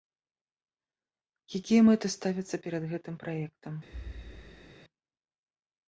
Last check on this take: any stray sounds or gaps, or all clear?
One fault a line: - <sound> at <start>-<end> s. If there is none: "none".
- thud at 3.9-4.7 s